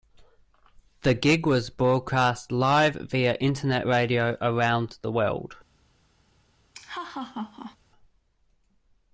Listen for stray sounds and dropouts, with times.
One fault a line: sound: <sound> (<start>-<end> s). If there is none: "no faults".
sound: laugh (6.7-7.8 s)